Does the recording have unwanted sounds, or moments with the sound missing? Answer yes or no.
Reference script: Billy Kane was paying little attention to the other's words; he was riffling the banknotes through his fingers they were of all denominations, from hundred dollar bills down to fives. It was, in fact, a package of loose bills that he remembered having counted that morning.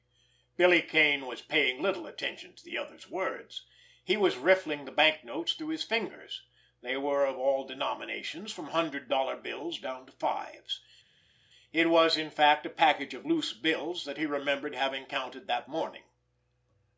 no